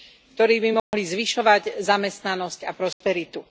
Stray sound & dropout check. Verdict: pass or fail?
fail